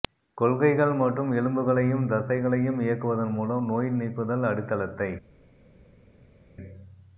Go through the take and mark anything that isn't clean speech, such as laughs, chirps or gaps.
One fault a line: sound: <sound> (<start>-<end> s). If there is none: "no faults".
no faults